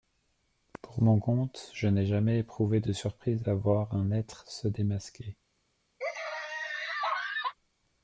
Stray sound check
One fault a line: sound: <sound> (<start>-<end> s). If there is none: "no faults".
sound: laugh (6.0-7.6 s)